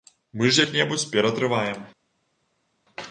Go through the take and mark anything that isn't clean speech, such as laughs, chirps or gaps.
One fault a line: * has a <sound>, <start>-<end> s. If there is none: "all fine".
all fine